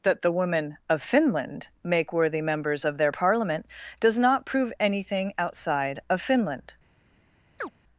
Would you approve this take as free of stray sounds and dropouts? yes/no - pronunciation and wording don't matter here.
no